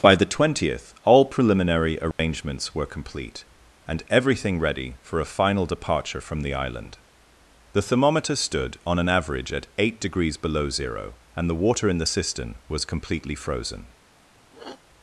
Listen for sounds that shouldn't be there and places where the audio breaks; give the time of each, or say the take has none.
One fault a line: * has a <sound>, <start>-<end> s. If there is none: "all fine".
* has a dropout, 2.1-2.2 s
* has a sniff, 14.5-14.8 s